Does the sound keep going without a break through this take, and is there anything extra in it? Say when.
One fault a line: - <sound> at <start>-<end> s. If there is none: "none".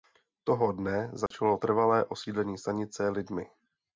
- dropout at 1.3-1.3 s